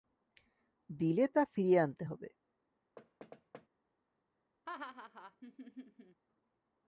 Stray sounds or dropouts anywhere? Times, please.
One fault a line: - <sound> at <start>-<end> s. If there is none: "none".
- thud at 3.0-3.7 s
- laugh at 4.7-6.2 s